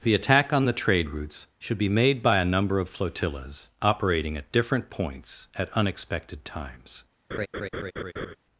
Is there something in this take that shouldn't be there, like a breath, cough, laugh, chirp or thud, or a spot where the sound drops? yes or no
yes